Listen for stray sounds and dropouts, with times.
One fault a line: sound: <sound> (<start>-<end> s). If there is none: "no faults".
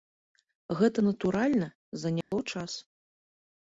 sound: dropout (2.2-2.3 s)